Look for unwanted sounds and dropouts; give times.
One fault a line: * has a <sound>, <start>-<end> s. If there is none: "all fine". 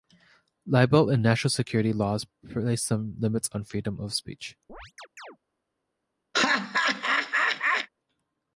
* has a chirp, 4.7-5.4 s
* has a laugh, 6.3-7.9 s